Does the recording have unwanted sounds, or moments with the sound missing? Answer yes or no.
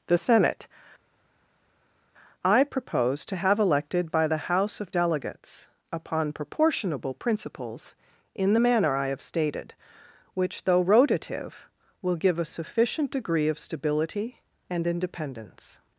no